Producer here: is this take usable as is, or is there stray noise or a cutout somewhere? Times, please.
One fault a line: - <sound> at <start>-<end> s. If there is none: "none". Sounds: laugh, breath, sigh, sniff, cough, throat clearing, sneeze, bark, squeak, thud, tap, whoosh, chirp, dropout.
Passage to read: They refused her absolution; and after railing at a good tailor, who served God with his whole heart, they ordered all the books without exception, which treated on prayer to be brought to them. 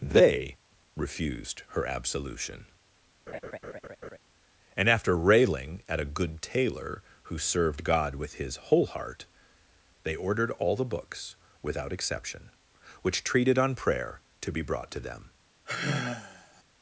- laugh at 3.3-4.2 s
- sigh at 15.6-16.6 s